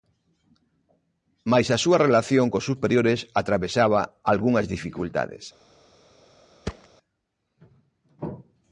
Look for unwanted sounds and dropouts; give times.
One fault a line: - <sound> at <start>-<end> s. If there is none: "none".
- thud at 6.6-6.9 s